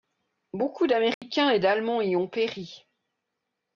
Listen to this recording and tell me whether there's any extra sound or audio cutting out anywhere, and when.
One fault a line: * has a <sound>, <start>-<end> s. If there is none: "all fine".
* has a dropout, 1.1-1.2 s